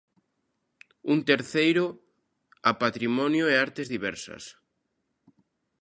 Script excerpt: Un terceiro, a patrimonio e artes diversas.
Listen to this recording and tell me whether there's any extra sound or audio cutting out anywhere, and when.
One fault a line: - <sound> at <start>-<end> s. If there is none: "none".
none